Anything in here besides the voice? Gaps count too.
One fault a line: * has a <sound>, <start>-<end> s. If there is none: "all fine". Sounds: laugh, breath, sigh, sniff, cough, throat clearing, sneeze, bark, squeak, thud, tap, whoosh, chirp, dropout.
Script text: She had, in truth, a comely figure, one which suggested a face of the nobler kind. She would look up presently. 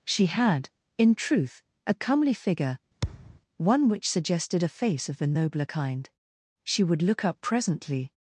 * has a thud, 3.0-3.4 s